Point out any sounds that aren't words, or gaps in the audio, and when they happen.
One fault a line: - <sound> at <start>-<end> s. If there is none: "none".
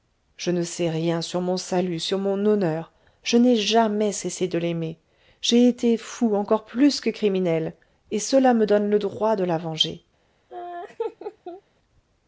- laugh at 10.5-11.6 s